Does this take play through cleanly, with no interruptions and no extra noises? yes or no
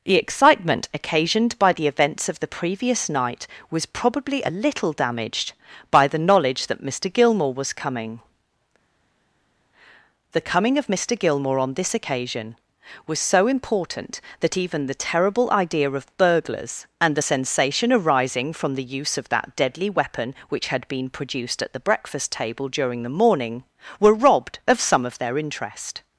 yes